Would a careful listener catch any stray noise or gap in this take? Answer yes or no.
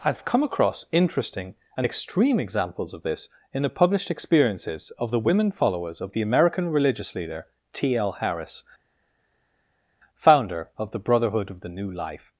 no